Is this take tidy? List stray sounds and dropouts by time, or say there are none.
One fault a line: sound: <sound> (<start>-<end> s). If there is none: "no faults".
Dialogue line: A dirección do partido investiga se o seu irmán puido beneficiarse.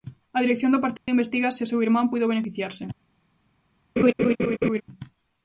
sound: dropout (1.0-1.1 s)
sound: laugh (4.0-4.8 s)